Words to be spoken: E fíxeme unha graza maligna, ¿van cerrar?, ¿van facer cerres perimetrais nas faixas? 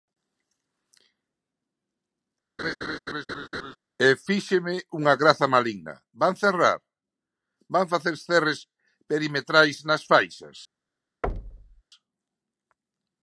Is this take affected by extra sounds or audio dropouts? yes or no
yes